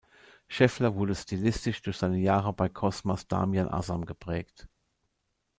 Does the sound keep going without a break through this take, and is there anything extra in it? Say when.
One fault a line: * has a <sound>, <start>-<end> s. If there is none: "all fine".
all fine